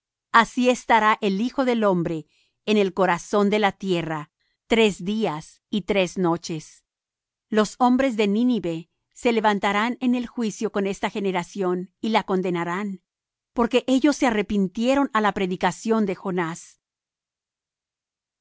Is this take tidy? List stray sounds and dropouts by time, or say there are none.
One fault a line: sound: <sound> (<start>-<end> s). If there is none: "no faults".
no faults